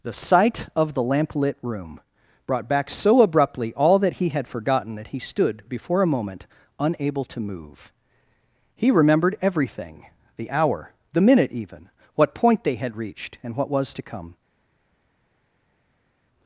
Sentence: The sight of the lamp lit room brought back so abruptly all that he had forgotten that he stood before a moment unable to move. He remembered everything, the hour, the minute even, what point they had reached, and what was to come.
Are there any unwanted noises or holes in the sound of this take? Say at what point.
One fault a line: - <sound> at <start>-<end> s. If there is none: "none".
none